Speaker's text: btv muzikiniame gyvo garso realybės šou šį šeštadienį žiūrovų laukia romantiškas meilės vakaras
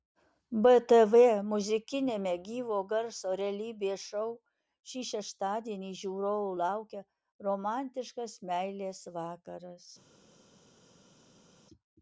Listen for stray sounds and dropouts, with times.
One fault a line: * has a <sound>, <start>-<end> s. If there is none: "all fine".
all fine